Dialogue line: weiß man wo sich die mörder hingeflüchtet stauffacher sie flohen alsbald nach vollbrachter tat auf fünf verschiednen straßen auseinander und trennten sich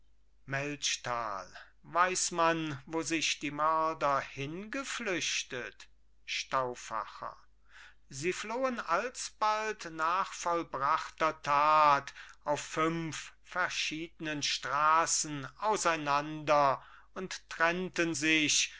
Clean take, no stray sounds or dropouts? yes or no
yes